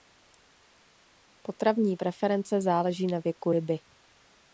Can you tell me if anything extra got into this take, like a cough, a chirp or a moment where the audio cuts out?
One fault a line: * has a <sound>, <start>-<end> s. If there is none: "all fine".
all fine